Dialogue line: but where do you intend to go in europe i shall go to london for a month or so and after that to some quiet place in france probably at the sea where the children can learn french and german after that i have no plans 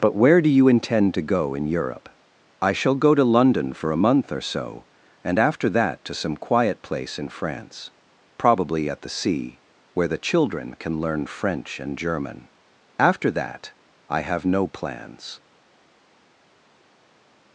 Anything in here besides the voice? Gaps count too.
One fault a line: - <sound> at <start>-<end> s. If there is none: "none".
none